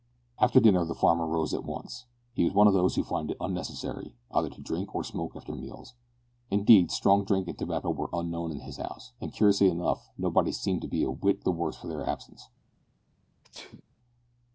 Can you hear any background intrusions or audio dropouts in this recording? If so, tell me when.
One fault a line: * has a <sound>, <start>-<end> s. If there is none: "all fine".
* has a sneeze, 13.4-13.8 s